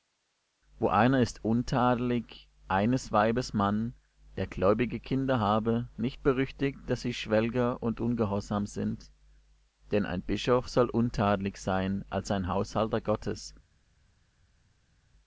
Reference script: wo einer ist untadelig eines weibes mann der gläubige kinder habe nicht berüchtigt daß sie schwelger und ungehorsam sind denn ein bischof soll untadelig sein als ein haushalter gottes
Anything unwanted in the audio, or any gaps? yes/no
no